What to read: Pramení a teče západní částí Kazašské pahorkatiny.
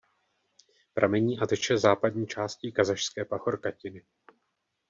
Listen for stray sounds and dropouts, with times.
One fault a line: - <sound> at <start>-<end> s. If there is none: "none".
none